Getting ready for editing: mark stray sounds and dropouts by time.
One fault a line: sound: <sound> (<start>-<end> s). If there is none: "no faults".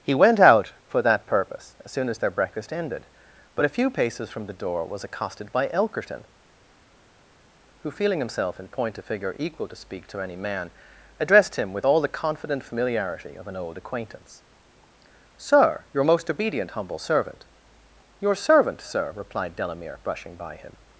no faults